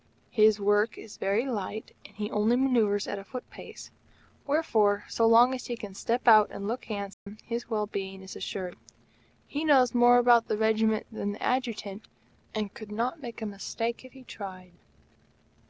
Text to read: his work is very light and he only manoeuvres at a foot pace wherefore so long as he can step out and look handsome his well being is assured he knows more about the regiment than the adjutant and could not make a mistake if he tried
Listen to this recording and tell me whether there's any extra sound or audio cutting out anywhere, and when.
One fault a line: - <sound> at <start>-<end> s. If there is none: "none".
- dropout at 7.1-7.3 s